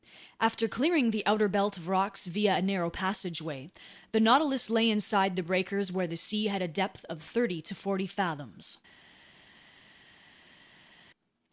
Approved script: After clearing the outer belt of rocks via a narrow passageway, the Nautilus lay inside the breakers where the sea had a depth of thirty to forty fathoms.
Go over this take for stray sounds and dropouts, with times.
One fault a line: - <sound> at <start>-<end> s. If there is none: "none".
none